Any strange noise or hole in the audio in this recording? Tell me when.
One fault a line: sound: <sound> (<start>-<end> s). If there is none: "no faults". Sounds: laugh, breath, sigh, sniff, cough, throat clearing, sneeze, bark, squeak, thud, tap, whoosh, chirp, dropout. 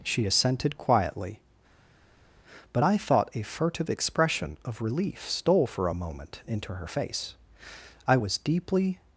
no faults